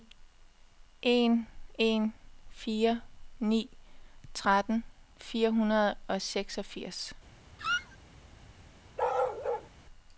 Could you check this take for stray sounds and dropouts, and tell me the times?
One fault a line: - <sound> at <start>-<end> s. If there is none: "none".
- squeak at 7.6-8.0 s
- bark at 9.0-9.7 s